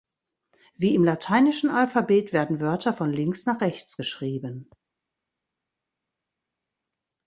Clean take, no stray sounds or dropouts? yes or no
yes